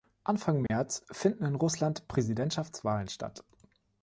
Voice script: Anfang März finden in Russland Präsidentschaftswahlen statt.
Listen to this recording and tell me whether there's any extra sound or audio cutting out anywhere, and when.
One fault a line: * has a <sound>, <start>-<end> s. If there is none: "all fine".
* has a dropout, 0.7-0.7 s